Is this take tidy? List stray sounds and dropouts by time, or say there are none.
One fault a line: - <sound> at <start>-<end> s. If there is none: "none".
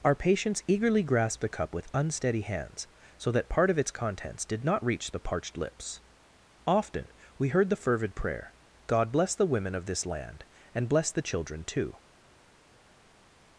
none